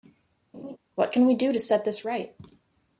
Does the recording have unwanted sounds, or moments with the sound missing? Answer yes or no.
yes